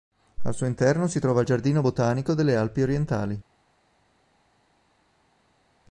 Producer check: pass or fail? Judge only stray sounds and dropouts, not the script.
pass